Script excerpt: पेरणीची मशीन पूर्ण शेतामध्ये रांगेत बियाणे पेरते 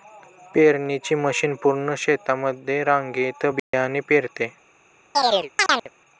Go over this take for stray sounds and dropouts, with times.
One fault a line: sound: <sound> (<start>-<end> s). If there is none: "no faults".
sound: dropout (3.6-3.7 s)
sound: chirp (5.1-5.9 s)